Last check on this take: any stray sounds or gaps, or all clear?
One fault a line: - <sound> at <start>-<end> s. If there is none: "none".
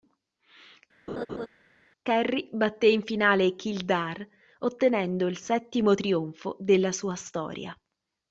- laugh at 1.1-1.5 s